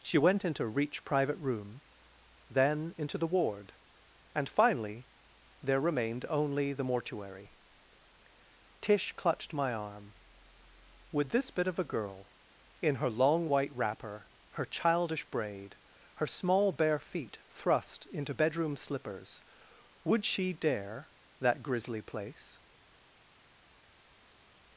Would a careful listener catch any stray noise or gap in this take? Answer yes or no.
no